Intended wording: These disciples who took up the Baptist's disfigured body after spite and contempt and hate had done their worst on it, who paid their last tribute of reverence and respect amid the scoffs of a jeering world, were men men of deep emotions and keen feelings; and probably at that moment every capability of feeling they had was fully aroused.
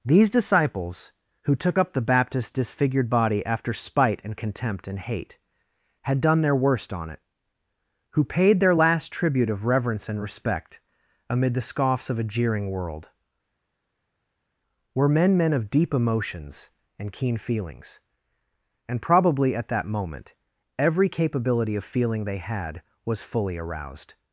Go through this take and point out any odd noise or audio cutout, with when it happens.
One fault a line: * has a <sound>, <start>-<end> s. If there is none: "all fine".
all fine